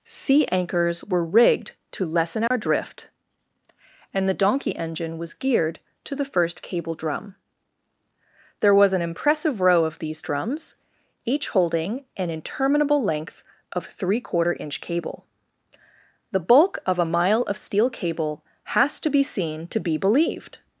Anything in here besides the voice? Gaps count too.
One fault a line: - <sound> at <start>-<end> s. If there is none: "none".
- dropout at 2.5-2.5 s